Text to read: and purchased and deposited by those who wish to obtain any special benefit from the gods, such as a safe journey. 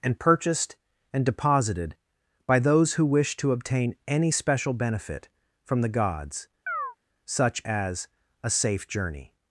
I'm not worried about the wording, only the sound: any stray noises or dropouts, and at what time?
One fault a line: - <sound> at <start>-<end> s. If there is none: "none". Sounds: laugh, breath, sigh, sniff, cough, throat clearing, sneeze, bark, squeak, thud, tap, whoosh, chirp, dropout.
- chirp at 6.7-7.0 s